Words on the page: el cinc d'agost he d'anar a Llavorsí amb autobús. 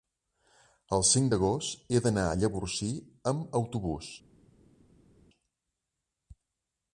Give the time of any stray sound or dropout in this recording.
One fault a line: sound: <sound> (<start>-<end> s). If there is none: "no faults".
no faults